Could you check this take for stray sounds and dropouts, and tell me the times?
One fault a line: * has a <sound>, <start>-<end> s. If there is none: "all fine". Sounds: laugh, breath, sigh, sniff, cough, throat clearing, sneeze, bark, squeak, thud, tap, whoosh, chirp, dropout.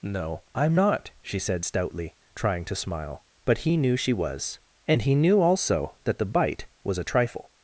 all fine